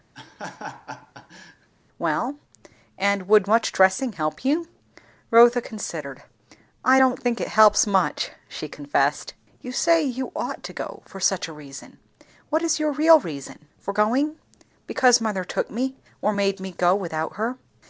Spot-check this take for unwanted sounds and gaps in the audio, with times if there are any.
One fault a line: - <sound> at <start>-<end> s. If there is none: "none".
- laugh at 0.1-1.7 s